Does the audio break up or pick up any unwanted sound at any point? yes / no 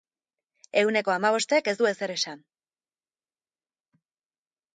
no